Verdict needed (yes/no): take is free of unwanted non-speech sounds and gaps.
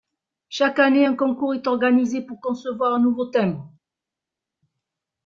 yes